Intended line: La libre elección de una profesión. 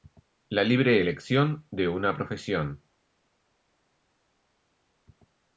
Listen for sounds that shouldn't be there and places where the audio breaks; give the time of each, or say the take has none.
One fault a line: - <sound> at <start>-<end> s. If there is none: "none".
none